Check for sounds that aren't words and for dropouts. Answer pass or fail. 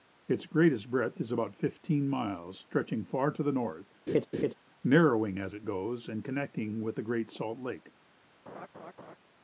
fail